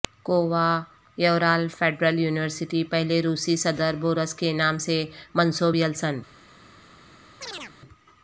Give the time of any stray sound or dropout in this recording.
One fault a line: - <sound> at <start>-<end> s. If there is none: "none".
- chirp at 7.4-7.7 s